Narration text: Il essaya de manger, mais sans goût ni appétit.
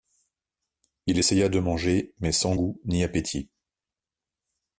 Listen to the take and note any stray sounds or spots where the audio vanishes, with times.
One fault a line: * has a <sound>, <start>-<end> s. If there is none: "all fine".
all fine